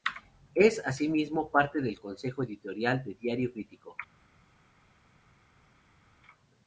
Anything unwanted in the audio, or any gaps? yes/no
no